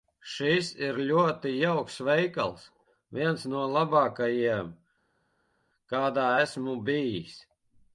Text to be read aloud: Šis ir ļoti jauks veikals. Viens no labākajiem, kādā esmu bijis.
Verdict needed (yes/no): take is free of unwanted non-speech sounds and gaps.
yes